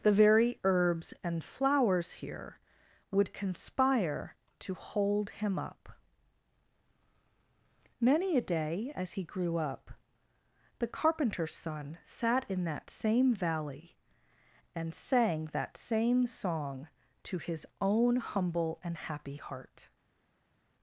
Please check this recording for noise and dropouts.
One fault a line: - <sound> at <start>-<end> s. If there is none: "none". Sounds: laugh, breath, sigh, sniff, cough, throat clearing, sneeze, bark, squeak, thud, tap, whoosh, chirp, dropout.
none